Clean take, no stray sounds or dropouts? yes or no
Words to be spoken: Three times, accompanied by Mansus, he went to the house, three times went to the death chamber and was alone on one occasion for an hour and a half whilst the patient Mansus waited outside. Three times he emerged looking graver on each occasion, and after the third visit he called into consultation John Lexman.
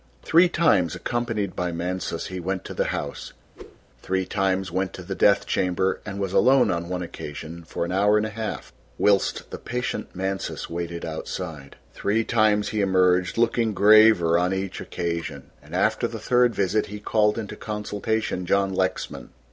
no